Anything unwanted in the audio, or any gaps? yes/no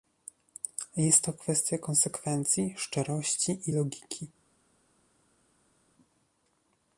no